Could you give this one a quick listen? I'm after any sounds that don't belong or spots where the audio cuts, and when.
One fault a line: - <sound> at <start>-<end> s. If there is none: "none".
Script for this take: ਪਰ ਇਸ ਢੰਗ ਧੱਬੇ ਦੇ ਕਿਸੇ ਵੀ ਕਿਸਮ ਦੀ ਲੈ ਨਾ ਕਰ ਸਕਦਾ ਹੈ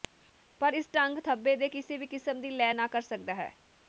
none